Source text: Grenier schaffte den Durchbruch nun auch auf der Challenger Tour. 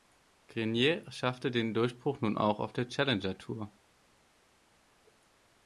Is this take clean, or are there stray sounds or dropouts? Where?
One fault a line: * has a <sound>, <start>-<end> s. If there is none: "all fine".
all fine